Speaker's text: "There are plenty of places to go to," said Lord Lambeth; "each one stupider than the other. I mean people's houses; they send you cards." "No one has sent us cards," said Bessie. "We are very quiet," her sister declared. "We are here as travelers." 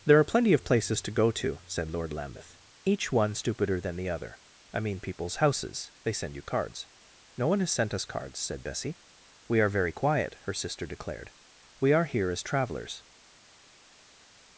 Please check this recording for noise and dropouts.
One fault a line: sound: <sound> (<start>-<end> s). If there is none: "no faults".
no faults